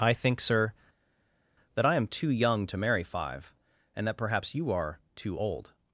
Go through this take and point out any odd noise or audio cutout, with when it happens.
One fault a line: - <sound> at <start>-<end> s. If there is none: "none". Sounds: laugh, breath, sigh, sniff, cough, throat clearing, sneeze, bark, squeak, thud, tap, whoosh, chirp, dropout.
none